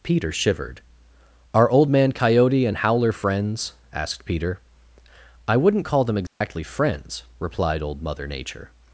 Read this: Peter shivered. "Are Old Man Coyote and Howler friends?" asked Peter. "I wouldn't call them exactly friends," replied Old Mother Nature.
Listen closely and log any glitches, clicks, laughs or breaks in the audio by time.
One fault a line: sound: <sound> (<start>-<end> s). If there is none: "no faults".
sound: dropout (6.3-6.4 s)